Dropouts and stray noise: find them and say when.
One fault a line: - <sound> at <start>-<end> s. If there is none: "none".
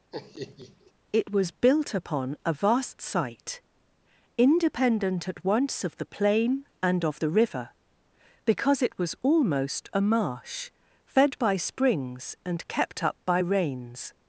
- laugh at 0.1-0.9 s